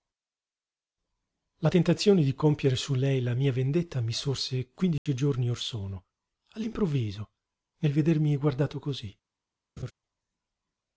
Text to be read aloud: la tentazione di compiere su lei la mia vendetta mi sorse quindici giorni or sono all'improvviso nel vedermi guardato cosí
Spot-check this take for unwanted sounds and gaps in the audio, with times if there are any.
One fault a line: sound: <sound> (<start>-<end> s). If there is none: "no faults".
sound: dropout (5.0-5.1 s)
sound: laugh (9.8-9.9 s)